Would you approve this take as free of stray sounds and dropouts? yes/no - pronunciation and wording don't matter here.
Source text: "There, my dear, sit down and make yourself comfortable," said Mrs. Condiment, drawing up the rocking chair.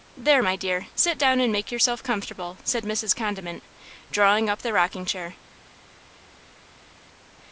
yes